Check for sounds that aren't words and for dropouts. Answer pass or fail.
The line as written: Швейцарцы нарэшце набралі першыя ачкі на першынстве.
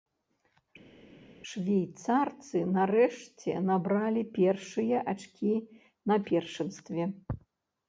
pass